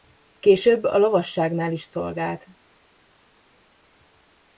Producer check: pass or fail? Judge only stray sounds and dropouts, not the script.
pass